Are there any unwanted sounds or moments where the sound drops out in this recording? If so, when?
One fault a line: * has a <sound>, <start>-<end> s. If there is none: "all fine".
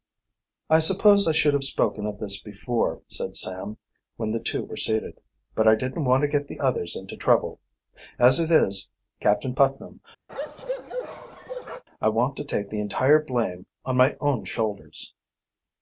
* has a bark, 10.3-11.8 s